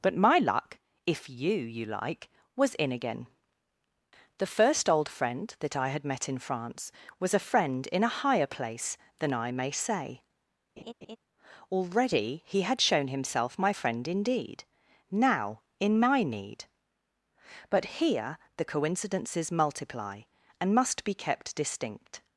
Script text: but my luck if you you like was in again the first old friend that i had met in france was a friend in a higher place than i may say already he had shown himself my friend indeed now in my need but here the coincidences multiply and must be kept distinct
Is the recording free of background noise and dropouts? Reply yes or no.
no